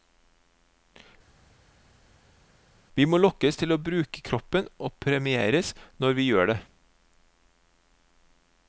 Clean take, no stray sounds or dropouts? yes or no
yes